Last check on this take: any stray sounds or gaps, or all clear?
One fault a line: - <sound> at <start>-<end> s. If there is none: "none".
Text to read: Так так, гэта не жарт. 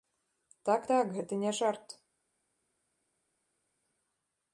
none